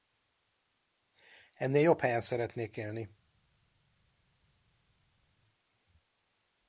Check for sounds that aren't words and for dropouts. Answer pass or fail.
pass